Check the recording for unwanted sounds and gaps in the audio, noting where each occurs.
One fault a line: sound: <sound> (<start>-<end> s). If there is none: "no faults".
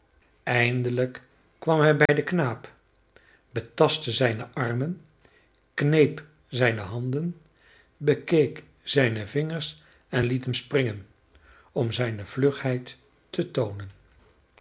sound: dropout (2.1-2.1 s)